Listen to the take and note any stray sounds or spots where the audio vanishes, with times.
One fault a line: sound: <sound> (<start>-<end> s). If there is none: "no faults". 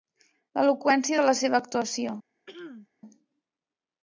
sound: throat clearing (2.5-2.9 s)